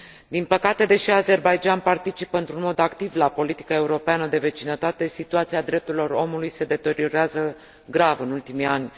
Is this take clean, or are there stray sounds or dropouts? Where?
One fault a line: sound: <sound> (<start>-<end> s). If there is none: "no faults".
no faults